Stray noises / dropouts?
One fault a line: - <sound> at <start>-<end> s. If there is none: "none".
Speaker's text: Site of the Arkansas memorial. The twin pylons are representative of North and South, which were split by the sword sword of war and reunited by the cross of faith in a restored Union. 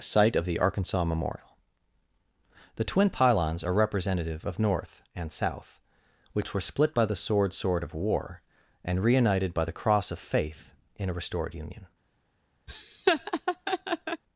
- laugh at 12.7-14.2 s